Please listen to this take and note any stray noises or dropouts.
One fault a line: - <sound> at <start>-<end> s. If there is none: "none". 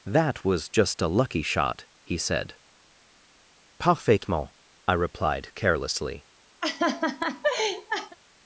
- laugh at 6.6-8.2 s